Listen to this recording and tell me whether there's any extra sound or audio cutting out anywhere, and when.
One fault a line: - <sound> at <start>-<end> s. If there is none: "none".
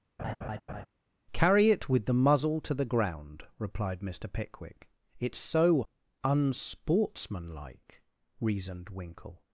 - laugh at 0.2-0.9 s